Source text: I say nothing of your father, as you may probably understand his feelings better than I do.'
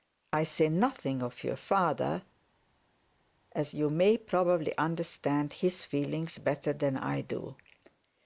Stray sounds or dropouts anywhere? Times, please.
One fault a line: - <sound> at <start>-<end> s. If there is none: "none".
none